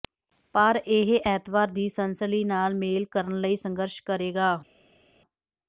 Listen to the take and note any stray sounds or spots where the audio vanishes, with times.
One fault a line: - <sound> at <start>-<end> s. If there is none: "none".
none